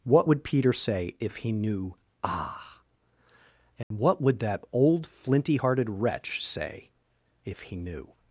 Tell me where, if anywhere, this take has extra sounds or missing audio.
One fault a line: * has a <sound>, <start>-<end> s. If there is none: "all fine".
* has a dropout, 3.8-3.9 s